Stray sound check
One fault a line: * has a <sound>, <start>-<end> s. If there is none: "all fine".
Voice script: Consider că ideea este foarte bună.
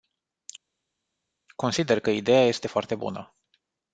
all fine